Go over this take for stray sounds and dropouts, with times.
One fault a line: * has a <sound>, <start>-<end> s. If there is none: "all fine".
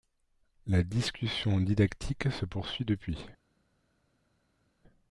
all fine